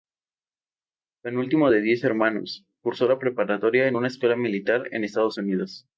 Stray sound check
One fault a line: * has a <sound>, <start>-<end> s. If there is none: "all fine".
all fine